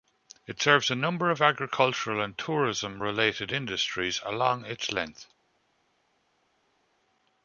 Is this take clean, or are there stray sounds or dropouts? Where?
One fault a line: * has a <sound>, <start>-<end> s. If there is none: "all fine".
all fine